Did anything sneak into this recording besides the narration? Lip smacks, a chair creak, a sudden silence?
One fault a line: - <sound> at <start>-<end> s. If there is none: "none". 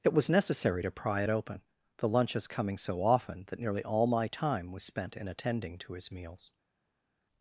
none